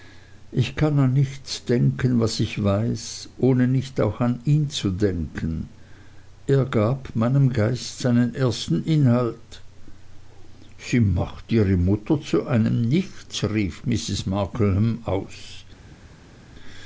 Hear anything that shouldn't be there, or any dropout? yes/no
no